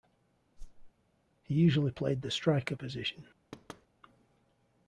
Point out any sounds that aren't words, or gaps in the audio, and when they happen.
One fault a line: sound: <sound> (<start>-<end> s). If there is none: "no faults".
sound: whoosh (0.6-0.9 s)
sound: thud (3.5-3.9 s)